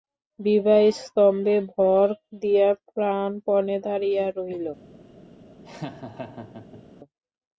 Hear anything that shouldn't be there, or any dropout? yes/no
yes